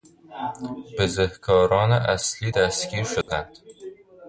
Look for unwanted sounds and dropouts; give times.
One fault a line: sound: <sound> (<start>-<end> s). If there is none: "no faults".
sound: dropout (3.2-3.3 s)